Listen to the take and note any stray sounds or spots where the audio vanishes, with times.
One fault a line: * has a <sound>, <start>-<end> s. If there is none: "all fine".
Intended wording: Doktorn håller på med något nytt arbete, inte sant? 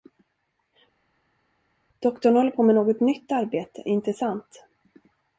all fine